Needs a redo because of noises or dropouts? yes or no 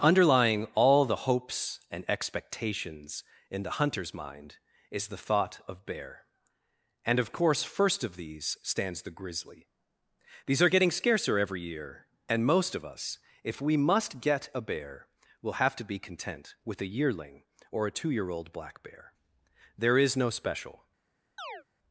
yes